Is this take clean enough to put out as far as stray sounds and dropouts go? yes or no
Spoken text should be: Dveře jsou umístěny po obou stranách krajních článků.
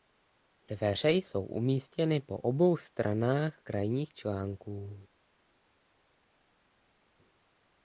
yes